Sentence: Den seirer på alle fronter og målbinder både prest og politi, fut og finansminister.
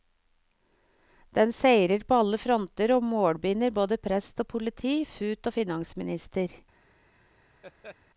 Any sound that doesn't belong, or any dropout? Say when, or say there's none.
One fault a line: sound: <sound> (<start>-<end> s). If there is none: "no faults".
sound: laugh (7.6-8.0 s)